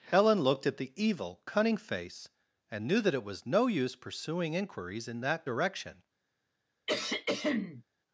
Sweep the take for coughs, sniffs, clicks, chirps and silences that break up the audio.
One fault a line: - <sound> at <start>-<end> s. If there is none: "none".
- throat clearing at 6.9-7.8 s